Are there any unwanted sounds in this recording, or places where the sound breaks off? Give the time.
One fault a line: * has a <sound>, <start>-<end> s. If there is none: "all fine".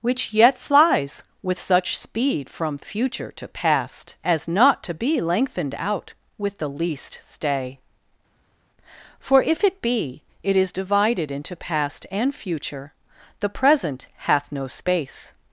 all fine